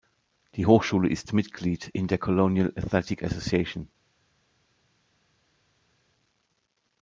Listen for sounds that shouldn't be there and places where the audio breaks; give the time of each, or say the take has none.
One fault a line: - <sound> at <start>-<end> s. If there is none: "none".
none